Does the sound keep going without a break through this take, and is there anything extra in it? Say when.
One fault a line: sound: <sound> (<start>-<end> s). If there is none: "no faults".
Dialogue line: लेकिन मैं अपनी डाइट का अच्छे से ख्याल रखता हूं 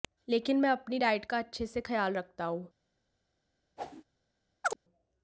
sound: whoosh (3.8-4.0 s)
sound: chirp (4.6-4.8 s)